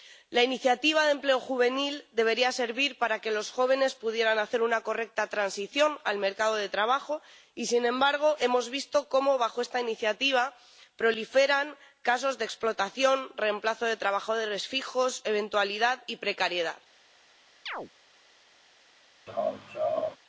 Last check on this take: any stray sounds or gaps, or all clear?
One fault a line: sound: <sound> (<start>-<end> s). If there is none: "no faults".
sound: chirp (17.7-17.9 s)
sound: laugh (19.3-20.2 s)